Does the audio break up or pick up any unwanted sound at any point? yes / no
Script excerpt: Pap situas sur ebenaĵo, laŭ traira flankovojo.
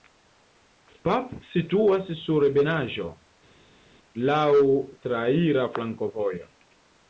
no